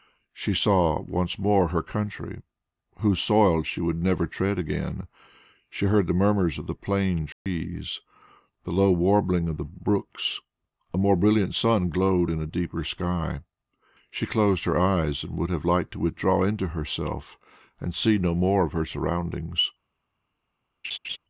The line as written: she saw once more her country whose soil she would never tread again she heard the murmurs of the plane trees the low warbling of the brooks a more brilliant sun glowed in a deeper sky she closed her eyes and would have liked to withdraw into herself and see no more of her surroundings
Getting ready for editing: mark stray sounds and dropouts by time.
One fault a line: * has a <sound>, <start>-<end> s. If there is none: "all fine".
* has a dropout, 7.3-7.5 s
* has a laugh, 20.8-21.2 s